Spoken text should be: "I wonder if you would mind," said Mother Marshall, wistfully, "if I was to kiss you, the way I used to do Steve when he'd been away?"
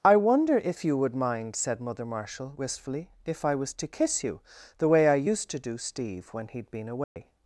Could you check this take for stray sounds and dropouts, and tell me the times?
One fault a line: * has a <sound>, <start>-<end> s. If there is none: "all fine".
* has a dropout, 7.0-7.2 s